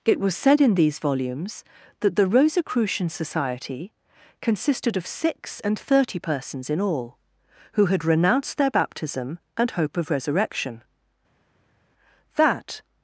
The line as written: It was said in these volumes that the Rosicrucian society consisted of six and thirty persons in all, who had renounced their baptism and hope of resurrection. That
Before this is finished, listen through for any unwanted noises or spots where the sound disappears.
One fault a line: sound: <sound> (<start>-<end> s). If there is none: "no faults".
no faults